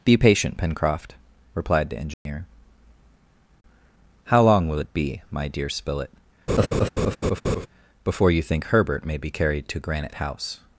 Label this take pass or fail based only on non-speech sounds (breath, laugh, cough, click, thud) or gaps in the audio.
fail